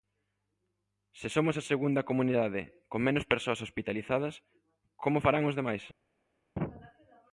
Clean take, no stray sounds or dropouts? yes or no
yes